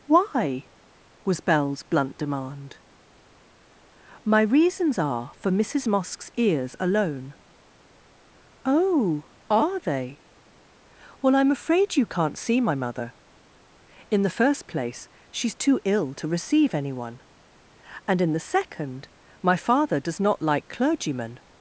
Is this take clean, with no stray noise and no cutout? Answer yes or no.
yes